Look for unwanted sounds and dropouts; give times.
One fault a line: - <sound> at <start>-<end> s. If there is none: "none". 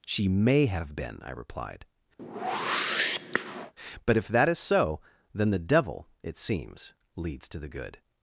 - whoosh at 2.2-3.7 s